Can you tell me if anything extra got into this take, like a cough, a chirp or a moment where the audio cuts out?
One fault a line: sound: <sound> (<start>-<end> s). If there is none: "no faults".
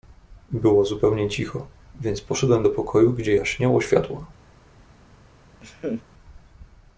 sound: laugh (5.6-6.0 s)